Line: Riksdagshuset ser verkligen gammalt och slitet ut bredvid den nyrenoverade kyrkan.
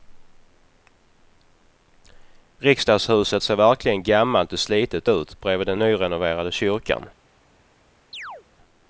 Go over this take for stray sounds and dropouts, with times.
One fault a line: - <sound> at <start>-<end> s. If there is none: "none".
- chirp at 8.1-8.4 s